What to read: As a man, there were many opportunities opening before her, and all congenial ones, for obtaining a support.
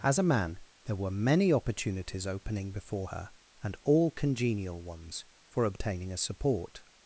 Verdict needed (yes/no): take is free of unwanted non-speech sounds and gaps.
yes